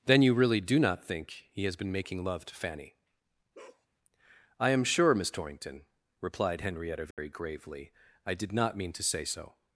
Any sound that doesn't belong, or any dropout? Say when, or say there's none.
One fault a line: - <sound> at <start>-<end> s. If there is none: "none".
- bark at 3.5-3.9 s
- dropout at 7.1-7.2 s